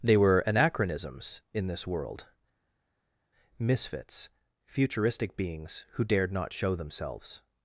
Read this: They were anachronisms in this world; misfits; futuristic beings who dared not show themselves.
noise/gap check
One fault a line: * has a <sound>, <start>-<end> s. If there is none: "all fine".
all fine